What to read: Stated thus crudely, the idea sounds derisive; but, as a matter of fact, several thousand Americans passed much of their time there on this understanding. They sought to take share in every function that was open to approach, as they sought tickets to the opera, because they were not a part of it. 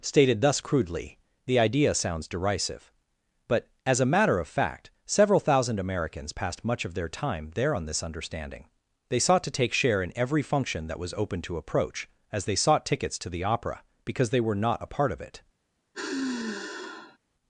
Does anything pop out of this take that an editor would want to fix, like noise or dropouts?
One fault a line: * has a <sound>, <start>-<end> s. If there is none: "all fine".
* has a sigh, 15.9-17.2 s